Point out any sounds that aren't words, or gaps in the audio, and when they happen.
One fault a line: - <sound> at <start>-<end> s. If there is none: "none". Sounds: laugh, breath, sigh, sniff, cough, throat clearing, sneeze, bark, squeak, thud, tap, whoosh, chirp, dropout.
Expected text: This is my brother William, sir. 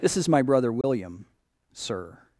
- dropout at 0.8-0.8 s